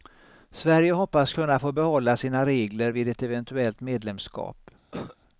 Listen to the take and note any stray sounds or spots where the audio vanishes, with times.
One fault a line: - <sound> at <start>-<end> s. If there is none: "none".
- cough at 4.9-5.2 s